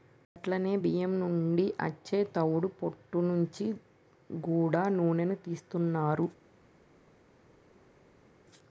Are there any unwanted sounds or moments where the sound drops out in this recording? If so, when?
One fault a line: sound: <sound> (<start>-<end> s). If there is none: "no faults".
no faults